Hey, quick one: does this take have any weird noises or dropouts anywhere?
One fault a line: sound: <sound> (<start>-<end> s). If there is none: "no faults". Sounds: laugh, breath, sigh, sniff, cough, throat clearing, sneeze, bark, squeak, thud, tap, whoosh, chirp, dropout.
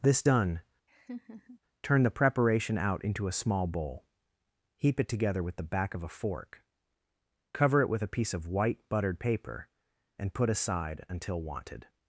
sound: laugh (0.9-1.6 s)